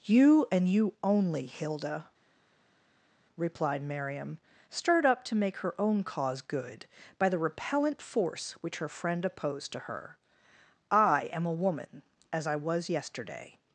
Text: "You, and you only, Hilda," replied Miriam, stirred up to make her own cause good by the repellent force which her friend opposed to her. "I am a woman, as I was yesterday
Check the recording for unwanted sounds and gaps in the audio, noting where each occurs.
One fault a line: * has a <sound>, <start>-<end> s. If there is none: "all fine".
all fine